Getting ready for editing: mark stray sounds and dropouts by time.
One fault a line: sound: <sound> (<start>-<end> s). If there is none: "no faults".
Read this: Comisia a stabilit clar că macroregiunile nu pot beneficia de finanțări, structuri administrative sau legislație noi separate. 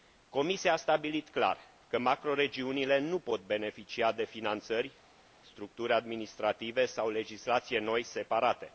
no faults